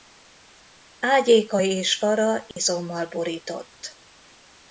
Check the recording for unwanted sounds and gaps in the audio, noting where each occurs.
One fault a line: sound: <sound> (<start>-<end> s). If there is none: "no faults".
sound: dropout (2.5-2.6 s)